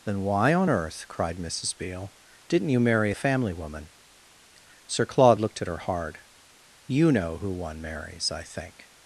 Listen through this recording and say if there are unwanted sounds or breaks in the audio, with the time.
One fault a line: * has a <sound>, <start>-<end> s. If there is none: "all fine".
all fine